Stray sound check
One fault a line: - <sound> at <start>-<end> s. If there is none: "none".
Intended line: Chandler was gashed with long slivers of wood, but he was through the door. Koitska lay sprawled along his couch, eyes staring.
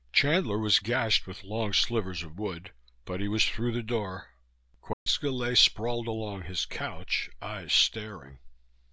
- dropout at 4.9-5.1 s